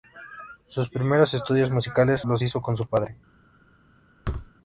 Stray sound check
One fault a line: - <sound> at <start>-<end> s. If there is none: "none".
- thud at 4.2-4.5 s